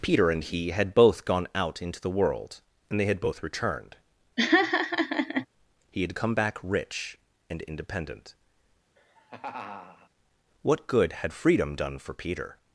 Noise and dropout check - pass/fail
fail